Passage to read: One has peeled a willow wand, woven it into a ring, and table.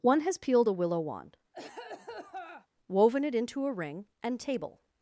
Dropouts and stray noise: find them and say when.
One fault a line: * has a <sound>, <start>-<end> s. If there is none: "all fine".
* has a cough, 1.5-2.7 s